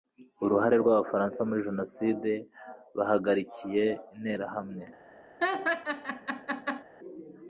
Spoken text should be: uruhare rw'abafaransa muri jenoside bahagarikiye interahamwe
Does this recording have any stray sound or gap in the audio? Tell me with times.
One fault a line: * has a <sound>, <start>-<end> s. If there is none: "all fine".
* has a laugh, 5.4-6.8 s